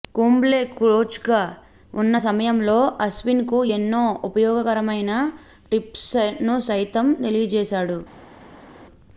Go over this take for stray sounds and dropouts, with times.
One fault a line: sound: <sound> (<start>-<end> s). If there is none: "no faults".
no faults